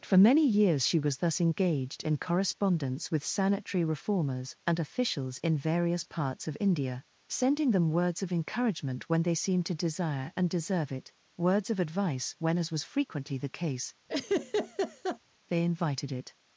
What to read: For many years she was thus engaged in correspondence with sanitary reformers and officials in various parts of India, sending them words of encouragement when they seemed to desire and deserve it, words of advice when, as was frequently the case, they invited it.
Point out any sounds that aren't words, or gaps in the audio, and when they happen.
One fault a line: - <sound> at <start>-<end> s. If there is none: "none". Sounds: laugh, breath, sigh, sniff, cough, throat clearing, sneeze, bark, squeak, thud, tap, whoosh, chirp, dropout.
- laugh at 14.1-15.2 s